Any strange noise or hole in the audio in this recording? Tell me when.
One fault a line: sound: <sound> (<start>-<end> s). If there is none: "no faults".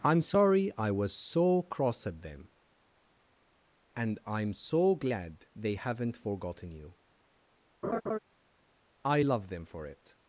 sound: laugh (7.8-8.2 s)